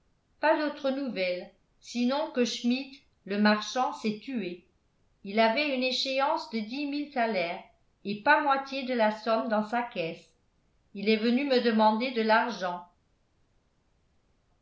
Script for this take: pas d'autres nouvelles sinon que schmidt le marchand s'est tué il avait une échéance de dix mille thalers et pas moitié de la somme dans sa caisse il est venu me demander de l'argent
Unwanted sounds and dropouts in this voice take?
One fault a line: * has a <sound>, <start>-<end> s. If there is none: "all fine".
all fine